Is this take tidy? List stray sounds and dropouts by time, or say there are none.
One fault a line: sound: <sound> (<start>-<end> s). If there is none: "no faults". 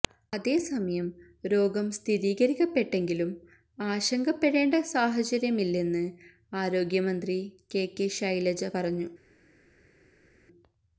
no faults